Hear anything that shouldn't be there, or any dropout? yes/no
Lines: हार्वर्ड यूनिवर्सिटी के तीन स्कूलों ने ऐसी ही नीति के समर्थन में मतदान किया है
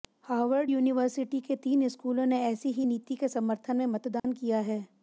yes